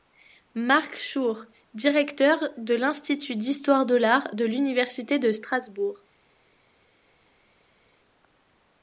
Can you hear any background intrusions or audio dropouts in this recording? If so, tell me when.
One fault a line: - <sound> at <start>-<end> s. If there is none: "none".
none